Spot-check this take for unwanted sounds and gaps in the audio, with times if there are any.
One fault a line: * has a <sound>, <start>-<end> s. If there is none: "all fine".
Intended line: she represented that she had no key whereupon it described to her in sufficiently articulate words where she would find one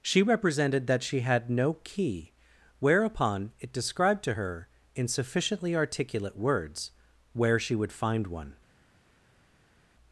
all fine